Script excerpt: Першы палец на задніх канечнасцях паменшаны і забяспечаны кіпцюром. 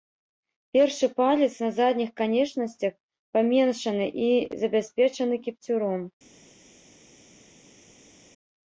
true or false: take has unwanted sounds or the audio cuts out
false